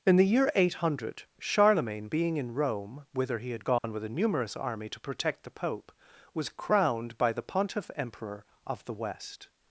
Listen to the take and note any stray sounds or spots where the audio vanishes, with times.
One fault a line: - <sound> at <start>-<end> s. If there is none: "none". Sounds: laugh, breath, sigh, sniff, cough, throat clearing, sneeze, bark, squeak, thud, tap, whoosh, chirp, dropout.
- dropout at 3.8-3.8 s